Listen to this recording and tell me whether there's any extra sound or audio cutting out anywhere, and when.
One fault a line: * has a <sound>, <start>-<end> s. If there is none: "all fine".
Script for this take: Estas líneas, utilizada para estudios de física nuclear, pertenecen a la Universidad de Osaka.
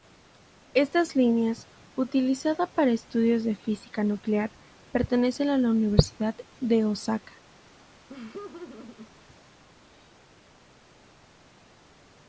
* has a laugh, 8.1-9.1 s